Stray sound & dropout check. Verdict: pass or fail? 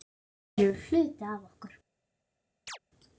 fail